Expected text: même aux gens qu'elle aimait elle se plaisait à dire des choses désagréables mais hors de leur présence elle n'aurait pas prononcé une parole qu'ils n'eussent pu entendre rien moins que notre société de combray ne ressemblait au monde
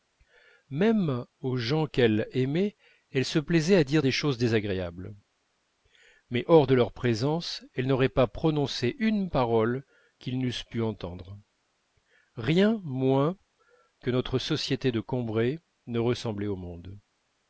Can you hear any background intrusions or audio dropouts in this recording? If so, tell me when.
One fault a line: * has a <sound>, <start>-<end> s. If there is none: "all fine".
all fine